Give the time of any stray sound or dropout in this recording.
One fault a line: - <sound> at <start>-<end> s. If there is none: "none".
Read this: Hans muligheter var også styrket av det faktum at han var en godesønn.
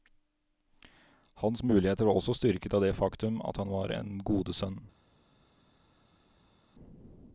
none